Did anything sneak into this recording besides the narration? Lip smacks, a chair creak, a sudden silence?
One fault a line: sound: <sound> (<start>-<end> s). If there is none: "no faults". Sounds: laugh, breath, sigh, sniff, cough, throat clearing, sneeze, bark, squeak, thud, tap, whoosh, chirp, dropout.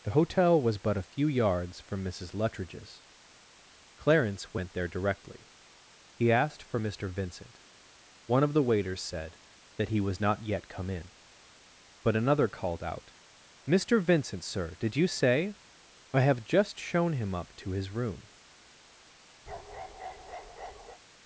sound: bark (19.5-21.0 s)